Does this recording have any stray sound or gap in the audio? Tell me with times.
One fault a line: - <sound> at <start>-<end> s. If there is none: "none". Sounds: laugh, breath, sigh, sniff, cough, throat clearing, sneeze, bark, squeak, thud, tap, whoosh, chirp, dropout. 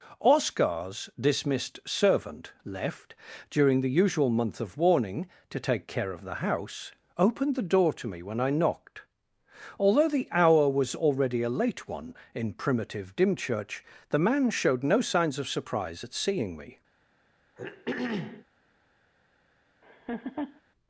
- throat clearing at 17.6-18.4 s
- laugh at 19.8-20.6 s